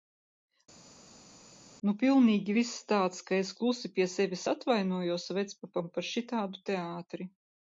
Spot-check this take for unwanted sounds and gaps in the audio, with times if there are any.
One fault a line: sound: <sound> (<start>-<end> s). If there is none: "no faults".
no faults